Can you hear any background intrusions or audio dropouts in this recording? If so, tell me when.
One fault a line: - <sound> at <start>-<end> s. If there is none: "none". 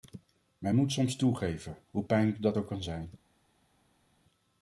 none